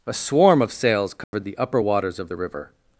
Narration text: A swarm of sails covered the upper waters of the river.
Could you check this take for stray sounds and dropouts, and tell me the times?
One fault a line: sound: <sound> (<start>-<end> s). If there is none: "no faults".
sound: dropout (1.2-1.3 s)